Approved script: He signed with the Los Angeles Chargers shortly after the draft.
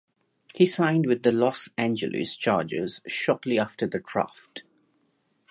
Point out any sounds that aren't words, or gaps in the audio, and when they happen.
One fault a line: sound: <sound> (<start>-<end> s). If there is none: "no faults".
no faults